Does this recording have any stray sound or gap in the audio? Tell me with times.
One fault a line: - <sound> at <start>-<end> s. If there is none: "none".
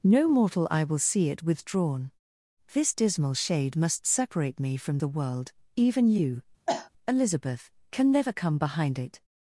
- cough at 6.7-6.9 s